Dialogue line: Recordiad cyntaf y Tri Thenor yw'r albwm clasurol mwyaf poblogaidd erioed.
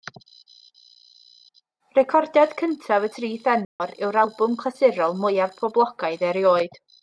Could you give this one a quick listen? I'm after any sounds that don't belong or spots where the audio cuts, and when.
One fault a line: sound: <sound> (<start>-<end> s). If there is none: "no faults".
sound: dropout (3.6-3.8 s)